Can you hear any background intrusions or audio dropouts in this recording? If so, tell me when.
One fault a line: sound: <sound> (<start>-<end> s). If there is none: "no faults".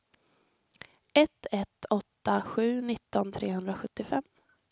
no faults